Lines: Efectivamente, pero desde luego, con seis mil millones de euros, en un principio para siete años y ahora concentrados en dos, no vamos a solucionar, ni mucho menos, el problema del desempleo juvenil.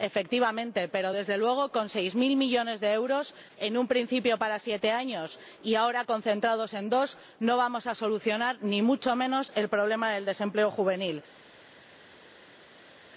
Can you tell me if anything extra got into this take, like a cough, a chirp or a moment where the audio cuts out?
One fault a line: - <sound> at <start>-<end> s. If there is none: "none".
none